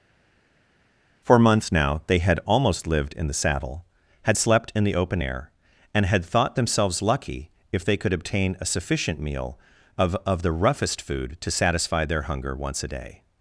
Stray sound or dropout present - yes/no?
no